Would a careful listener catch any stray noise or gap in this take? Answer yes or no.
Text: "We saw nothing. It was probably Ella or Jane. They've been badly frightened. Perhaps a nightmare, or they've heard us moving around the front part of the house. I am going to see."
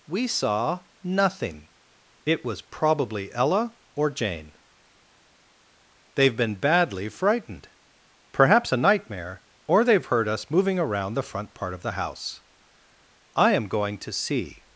no